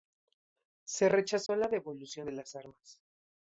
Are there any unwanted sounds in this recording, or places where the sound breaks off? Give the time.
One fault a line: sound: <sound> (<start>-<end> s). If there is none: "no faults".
sound: dropout (1.5-1.5 s)